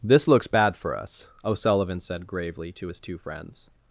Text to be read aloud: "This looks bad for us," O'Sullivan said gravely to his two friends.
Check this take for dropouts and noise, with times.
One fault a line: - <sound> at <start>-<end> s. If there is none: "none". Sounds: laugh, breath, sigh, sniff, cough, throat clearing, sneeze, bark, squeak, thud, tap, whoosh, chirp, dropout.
none